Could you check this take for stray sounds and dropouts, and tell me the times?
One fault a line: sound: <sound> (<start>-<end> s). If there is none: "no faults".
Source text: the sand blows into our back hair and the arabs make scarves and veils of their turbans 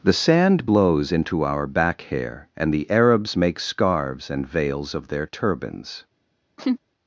sound: laugh (6.6-6.8 s)